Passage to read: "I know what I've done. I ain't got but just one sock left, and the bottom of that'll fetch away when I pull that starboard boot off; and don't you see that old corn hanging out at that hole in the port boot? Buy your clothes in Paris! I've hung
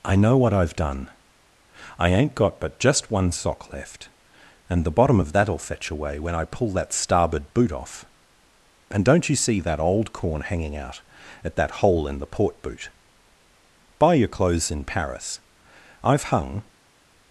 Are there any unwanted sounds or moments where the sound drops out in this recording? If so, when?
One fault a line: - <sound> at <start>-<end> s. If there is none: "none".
none